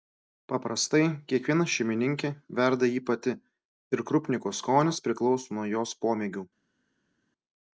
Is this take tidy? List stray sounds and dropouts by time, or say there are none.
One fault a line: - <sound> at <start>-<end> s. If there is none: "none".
none